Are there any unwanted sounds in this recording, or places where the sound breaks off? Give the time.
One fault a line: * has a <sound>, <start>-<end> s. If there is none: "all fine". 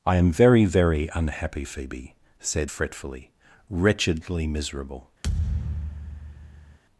* has a thud, 5.2-6.8 s